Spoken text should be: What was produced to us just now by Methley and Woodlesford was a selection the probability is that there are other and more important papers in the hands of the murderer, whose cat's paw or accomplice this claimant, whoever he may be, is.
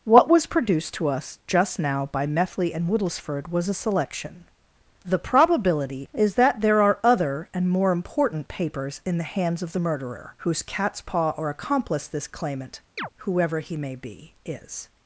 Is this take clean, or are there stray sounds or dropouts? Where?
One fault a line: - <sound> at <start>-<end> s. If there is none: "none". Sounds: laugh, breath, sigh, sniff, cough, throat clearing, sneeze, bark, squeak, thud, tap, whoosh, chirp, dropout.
- chirp at 13.0-13.1 s